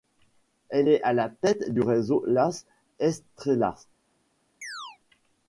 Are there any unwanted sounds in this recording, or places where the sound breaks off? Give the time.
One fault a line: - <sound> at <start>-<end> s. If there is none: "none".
- chirp at 4.6-5.0 s